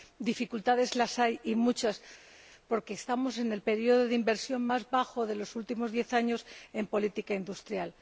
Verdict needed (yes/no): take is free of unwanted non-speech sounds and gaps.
yes